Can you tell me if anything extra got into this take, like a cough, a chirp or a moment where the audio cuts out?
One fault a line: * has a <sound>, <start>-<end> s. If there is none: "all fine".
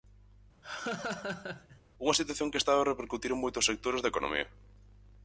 * has a laugh, 0.6-1.8 s